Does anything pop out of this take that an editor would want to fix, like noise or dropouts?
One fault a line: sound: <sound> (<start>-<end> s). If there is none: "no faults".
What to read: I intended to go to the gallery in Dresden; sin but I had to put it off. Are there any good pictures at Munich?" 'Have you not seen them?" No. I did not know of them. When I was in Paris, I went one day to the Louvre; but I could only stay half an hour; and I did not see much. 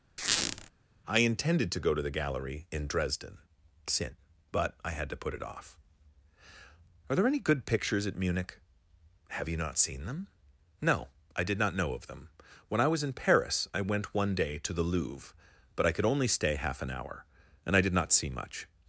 sound: squeak (0.2-0.7 s)